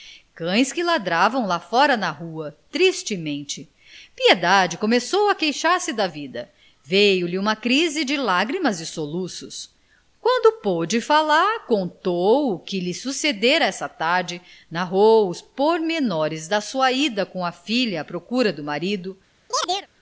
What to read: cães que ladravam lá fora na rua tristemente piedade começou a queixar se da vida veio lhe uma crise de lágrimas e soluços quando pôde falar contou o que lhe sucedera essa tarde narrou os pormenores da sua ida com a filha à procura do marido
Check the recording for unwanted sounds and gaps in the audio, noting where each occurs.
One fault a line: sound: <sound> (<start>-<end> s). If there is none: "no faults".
sound: chirp (19.5-19.9 s)